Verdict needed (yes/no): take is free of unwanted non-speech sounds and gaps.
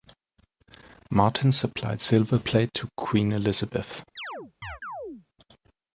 no